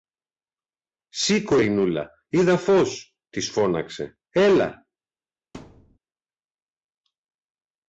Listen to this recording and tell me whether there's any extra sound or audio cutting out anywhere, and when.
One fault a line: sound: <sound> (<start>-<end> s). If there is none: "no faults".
sound: thud (5.5-6.0 s)